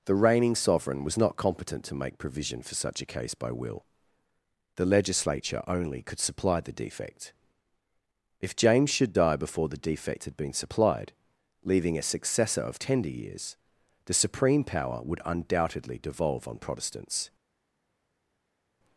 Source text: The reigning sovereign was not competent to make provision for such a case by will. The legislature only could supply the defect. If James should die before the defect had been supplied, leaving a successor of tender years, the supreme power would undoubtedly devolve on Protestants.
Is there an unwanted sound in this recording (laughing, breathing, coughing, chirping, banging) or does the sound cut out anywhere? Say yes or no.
no